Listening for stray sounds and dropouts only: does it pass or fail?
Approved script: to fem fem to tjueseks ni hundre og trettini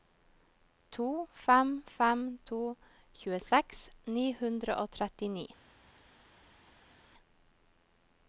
pass